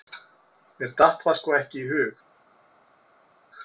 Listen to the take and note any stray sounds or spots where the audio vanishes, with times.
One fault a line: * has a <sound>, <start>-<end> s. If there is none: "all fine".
all fine